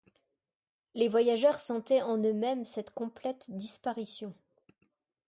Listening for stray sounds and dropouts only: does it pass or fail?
pass